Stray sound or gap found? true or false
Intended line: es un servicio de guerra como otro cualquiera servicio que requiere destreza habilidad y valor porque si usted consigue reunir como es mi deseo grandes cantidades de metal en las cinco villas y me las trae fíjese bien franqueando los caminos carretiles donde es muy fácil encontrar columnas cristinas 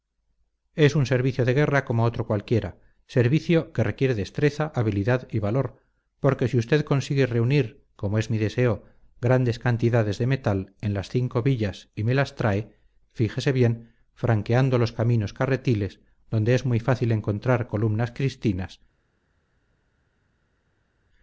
false